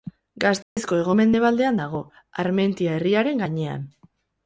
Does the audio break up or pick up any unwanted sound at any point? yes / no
yes